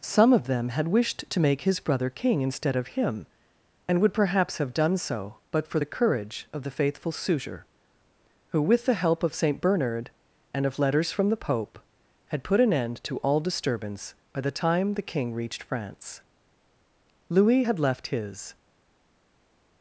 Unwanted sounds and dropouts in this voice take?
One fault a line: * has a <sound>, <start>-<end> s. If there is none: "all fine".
all fine